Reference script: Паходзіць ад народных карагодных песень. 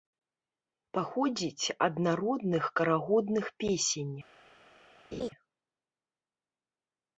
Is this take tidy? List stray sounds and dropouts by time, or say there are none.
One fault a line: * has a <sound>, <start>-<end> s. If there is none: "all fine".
* has a laugh, 5.1-5.3 s